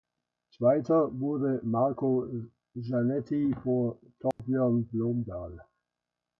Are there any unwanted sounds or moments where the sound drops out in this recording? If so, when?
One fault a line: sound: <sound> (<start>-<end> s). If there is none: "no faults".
sound: dropout (4.3-4.4 s)